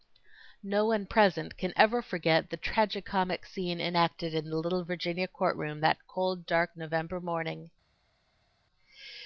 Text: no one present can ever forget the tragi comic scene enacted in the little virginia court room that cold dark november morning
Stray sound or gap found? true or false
false